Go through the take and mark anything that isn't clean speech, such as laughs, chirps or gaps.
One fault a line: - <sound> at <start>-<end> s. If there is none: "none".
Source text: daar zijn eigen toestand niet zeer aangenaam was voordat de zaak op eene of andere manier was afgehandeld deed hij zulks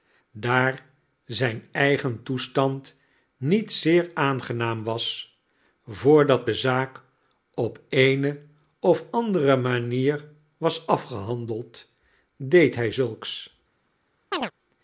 - chirp at 14.3-14.5 s